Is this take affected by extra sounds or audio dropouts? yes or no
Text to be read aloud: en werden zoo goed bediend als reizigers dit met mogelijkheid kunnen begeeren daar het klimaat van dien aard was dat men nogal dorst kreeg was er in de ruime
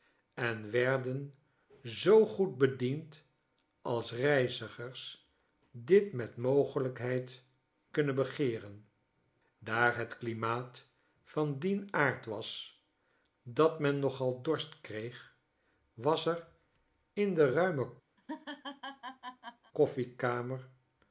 yes